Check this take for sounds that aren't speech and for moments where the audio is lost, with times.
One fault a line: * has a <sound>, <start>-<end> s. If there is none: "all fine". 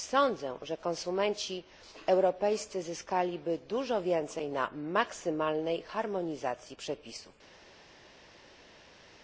all fine